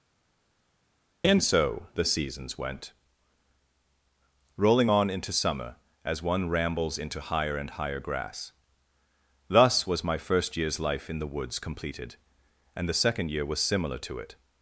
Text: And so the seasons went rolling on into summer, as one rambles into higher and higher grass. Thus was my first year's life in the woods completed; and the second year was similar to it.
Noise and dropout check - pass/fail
pass